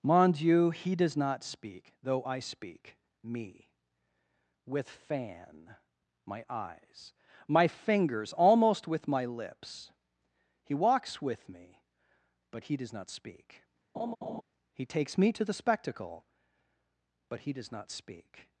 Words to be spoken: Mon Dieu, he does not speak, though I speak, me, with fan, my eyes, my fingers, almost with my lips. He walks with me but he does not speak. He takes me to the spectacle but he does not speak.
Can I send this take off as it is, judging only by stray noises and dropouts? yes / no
no